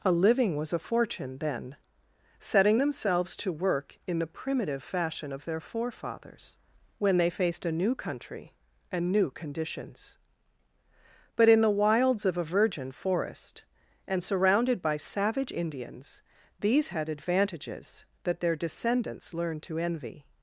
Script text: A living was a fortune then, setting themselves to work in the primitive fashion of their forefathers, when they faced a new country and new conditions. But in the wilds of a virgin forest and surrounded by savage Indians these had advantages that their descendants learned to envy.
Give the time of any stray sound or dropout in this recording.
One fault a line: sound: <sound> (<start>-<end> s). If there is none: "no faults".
no faults